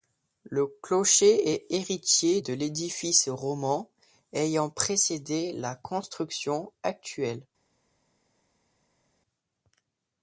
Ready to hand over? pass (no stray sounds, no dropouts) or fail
pass